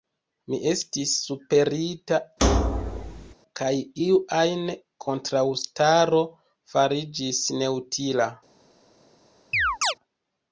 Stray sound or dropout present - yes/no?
yes